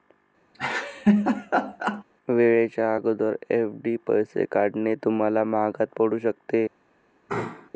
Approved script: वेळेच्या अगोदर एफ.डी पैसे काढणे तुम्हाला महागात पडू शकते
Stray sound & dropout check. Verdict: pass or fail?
fail